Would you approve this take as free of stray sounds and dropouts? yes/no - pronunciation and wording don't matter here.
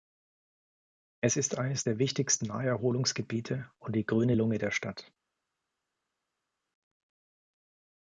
yes